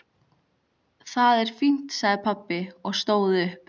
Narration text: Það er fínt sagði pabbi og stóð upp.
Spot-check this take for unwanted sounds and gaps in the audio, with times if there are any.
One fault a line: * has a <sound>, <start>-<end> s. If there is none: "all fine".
all fine